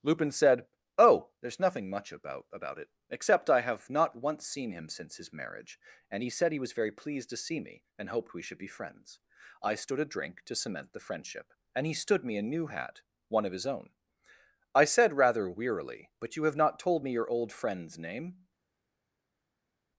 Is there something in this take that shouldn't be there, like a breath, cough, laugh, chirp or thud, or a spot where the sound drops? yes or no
no